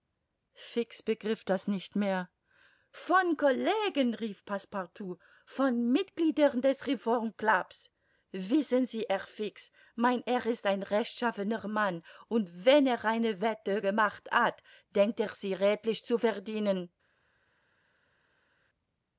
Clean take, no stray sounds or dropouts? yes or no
yes